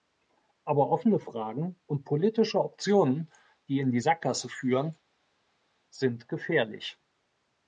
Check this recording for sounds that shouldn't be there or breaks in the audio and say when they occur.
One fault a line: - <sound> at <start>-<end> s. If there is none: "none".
none